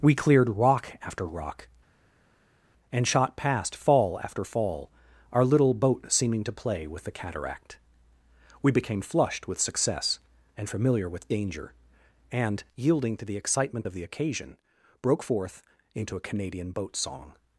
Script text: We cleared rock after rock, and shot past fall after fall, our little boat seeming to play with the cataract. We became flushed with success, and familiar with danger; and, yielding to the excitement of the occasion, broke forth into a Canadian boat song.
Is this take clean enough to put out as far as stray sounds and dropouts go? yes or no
yes